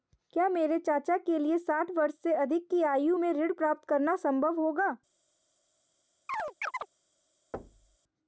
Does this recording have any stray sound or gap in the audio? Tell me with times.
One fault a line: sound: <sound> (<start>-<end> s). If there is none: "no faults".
sound: chirp (6.3-6.9 s)
sound: thud (7.5-8.0 s)